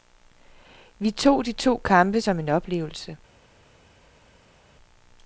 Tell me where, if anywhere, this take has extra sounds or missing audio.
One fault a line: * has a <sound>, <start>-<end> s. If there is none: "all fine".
all fine